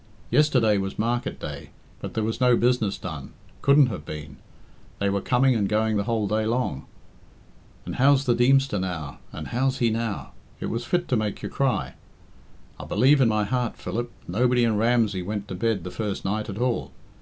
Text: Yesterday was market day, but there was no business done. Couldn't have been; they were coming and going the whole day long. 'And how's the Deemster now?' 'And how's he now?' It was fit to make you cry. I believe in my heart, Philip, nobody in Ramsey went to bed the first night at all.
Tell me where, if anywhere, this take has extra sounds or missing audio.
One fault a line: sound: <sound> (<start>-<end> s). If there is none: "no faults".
no faults